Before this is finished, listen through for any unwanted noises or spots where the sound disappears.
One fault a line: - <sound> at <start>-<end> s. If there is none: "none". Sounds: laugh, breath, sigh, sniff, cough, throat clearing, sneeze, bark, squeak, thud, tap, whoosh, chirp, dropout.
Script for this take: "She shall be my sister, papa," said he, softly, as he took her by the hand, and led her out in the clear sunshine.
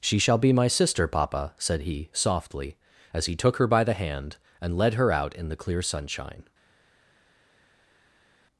none